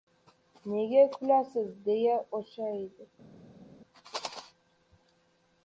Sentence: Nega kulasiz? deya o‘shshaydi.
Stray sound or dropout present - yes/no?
no